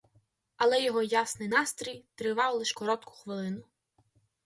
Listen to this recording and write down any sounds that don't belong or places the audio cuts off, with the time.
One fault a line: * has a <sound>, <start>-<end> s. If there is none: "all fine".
all fine